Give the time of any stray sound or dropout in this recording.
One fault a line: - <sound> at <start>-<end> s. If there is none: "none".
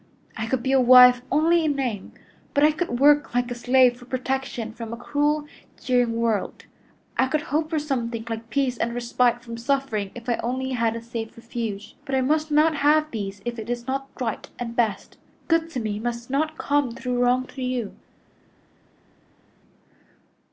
none